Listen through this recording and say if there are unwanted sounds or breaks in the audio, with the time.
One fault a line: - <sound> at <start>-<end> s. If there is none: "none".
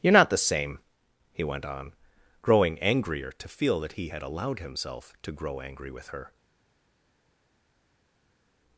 none